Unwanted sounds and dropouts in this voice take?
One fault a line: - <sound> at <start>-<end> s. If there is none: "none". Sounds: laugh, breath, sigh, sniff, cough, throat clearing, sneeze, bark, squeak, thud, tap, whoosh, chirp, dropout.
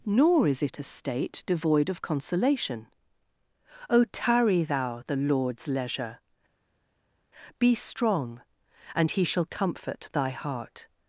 none